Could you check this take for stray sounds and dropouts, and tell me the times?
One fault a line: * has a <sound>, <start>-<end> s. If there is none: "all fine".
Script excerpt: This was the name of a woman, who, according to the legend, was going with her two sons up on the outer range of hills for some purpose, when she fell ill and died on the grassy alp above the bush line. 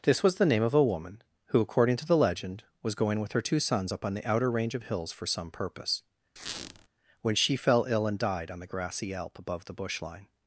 * has a squeak, 6.4-6.9 s